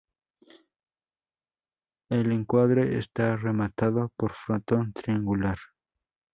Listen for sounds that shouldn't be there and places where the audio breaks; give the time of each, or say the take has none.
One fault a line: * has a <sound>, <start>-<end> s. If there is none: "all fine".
all fine